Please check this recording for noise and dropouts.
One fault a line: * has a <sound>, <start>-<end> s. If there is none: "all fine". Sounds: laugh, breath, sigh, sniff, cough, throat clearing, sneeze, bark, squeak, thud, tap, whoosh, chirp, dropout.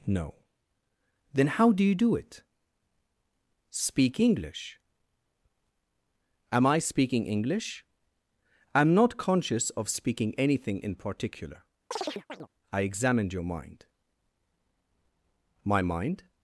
* has a chirp, 11.9-12.5 s